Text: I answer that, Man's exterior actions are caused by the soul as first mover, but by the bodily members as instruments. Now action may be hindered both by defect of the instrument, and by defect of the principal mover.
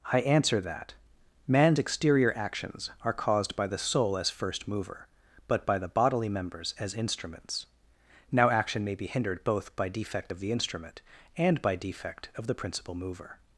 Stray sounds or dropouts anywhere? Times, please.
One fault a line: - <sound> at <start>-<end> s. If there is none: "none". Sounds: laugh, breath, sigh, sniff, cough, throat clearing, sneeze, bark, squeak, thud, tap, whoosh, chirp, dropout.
none